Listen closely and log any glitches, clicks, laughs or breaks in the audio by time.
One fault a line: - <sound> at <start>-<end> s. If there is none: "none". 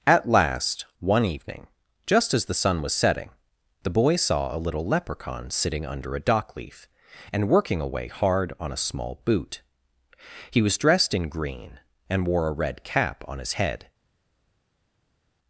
none